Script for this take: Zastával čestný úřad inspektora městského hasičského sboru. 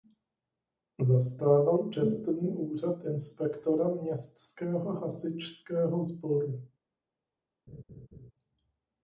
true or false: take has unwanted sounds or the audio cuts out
true